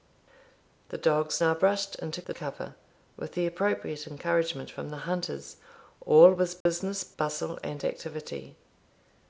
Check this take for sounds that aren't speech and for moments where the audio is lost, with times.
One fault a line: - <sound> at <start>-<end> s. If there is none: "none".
- dropout at 6.6-6.7 s